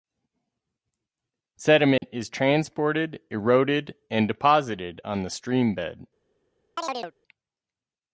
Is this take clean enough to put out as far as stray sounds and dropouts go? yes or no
no